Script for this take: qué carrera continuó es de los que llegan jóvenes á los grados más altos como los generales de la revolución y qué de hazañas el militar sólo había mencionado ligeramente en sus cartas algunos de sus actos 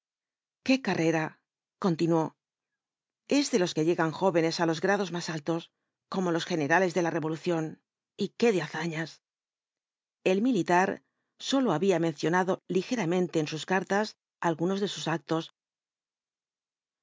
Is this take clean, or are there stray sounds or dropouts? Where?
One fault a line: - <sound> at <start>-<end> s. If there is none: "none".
none